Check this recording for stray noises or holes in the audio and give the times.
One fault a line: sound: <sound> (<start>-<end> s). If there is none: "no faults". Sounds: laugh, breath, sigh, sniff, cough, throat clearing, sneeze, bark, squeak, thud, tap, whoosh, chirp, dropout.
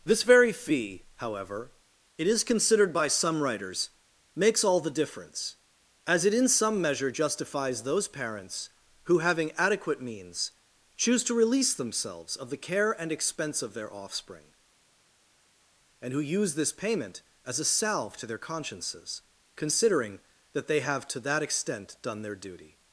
no faults